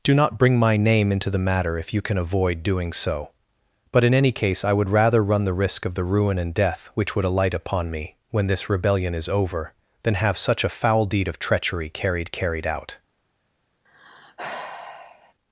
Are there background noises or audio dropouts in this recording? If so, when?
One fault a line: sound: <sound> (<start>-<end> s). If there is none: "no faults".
sound: sigh (13.8-15.3 s)